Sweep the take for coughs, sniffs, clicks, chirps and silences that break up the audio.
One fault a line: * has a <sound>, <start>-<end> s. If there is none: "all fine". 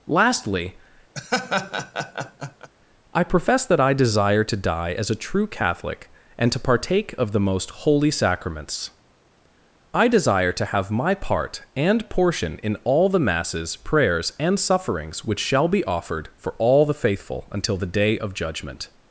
* has a laugh, 1.1-2.7 s